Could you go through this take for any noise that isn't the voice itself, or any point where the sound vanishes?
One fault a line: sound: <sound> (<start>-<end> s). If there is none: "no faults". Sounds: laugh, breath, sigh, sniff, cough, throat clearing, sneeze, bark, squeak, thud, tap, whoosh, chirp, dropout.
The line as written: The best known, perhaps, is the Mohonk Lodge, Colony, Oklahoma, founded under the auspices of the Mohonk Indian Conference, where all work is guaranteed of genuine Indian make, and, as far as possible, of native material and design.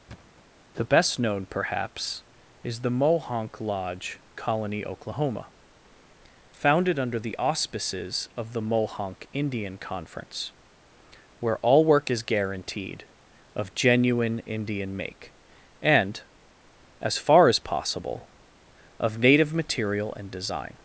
sound: thud (0.1-0.4 s)